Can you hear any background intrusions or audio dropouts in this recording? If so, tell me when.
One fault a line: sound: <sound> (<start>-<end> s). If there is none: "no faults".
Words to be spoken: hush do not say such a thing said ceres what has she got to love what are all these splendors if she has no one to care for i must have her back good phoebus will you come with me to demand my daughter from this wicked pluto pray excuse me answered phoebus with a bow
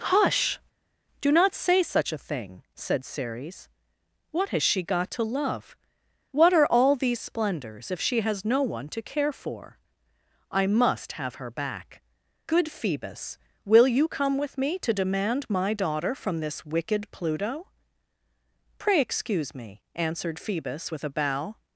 no faults